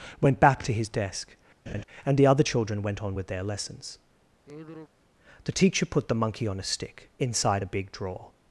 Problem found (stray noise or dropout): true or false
true